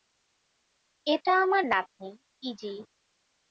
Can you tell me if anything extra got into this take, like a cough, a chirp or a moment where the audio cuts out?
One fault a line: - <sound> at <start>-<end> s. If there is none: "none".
none